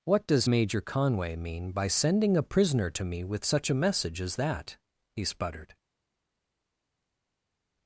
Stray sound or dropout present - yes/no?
no